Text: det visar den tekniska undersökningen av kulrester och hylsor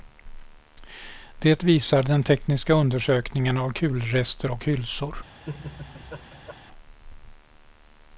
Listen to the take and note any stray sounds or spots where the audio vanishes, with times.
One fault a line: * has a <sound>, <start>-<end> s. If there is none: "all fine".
* has a laugh, 5.4-6.6 s